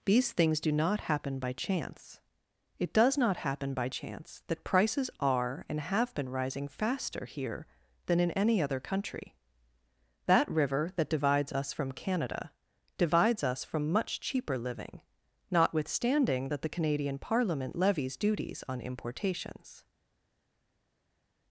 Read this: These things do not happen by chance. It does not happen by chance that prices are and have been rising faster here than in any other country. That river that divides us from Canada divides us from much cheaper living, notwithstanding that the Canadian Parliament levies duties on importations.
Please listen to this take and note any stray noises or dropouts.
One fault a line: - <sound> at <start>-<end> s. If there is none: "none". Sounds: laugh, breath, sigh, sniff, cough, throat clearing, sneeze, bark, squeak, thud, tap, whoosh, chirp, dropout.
none